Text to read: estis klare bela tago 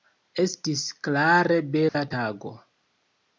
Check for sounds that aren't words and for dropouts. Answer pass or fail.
fail